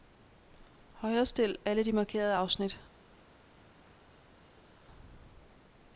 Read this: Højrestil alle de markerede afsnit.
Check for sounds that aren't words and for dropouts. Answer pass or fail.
pass